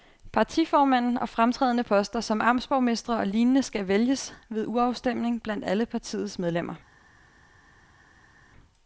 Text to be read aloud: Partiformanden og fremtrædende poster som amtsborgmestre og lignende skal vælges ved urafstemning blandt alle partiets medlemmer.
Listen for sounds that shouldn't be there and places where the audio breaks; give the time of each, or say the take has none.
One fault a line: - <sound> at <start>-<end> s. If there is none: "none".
none